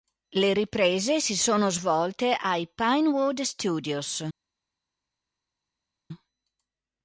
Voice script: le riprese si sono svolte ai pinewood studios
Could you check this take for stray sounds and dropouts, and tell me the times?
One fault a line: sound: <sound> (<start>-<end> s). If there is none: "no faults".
no faults